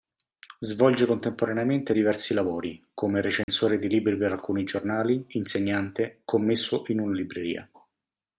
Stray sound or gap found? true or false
true